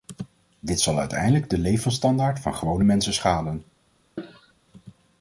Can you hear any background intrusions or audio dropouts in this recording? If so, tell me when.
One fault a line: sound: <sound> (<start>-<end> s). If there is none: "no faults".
sound: cough (4.2-4.5 s)